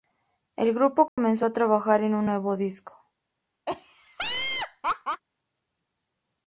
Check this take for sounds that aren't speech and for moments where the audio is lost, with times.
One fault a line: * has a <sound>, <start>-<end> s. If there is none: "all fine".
* has a dropout, 1.1-1.2 s
* has a laugh, 3.7-5.2 s